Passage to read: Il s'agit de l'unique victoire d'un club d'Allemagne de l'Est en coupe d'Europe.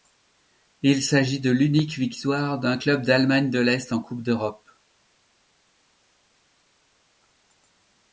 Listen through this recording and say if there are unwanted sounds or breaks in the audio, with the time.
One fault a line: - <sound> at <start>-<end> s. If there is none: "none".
none